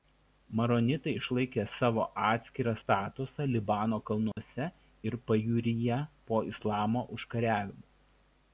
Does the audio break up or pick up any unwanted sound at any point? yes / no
yes